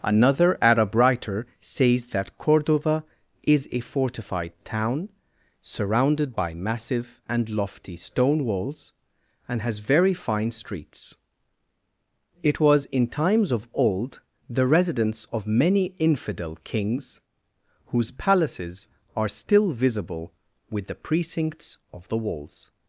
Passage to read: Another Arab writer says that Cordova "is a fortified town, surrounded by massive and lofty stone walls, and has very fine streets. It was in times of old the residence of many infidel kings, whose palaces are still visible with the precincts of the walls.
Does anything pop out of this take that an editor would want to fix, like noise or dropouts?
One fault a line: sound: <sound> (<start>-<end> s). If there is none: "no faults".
no faults